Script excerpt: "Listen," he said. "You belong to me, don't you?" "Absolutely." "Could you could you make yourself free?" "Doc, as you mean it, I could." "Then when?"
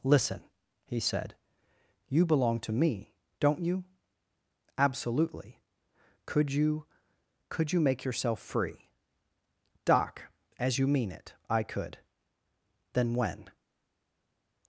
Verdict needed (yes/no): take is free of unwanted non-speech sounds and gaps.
yes